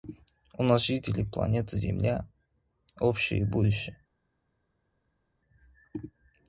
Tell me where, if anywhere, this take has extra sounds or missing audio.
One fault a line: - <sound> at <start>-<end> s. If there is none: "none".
none